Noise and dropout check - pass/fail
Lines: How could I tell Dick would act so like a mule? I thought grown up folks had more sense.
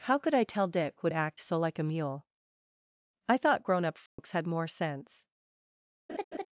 fail